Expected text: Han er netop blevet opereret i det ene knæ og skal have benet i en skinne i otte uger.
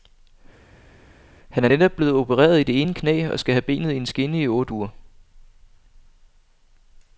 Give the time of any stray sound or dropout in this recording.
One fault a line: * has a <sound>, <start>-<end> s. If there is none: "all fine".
all fine